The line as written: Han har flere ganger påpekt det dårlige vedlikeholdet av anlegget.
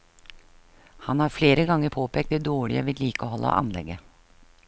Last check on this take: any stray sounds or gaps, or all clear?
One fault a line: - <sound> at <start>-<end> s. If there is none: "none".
none